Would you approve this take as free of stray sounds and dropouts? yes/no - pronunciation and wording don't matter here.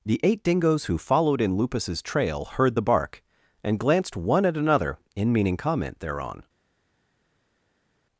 yes